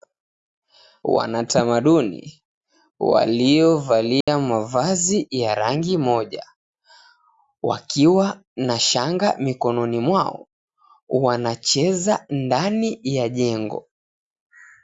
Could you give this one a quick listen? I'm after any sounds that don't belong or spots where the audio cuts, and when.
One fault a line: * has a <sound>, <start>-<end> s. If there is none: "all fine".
* has a dropout, 4.2-4.3 s